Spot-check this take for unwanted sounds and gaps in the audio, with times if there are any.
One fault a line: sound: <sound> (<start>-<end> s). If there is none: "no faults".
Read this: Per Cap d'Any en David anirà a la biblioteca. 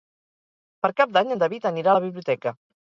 no faults